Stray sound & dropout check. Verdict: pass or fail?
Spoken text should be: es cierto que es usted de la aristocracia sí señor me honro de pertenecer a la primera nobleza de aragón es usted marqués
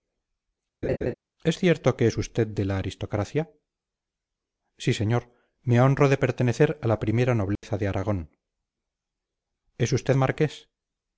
fail